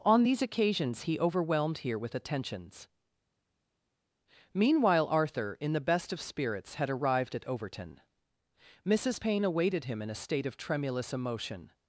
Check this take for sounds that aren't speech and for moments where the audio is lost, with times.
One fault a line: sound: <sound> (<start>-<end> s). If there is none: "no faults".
no faults